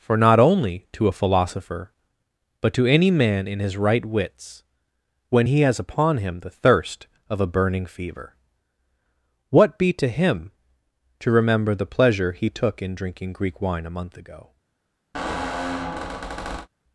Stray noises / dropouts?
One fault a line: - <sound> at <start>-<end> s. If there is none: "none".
- squeak at 15.1-16.7 s